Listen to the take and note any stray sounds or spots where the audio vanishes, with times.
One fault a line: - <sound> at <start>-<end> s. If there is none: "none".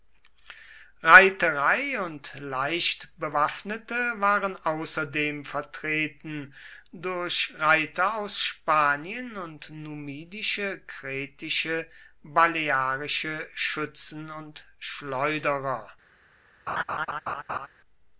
- laugh at 16.7-17.7 s